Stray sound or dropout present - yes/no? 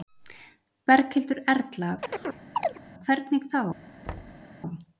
yes